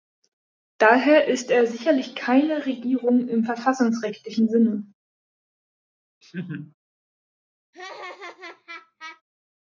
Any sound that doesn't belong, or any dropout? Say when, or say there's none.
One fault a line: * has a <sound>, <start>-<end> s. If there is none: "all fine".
* has a laugh, 6.2-6.7 s
* has a laugh, 7.7-9.2 s